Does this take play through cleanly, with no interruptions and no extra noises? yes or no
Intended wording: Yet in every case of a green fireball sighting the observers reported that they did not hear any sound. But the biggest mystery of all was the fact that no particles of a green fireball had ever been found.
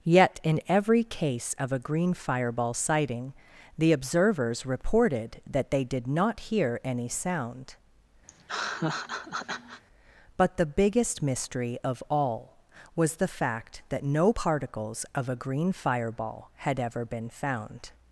no